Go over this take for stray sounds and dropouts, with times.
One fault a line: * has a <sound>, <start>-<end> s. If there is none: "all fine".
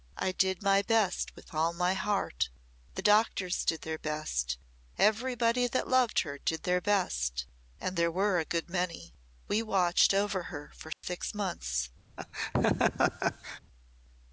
* has a dropout, 10.9-11.0 s
* has a laugh, 12.2-13.6 s